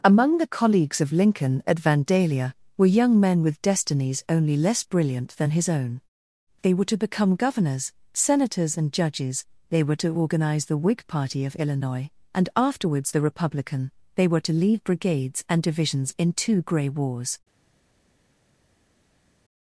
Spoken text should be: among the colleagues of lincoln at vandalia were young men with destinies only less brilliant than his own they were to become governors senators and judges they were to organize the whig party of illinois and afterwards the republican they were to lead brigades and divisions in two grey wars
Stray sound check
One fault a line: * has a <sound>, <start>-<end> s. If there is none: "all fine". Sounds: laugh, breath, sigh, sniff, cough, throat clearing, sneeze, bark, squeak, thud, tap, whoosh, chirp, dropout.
all fine